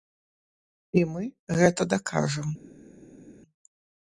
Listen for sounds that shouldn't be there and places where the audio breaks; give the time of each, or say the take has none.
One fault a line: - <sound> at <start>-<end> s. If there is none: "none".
none